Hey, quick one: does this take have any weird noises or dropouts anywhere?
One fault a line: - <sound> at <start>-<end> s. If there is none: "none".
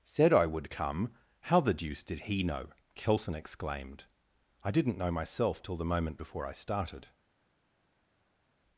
none